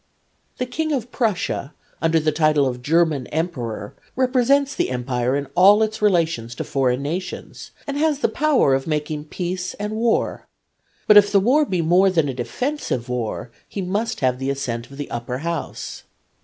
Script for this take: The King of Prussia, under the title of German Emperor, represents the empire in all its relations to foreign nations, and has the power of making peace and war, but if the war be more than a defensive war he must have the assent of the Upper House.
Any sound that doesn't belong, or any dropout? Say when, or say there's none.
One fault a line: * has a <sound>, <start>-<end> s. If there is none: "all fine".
all fine